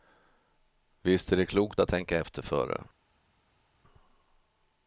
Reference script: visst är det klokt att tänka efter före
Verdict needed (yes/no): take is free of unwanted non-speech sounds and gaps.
yes